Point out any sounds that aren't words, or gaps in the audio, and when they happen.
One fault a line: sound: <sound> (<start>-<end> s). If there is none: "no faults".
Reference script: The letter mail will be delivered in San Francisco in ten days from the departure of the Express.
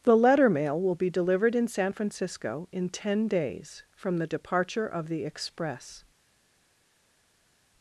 no faults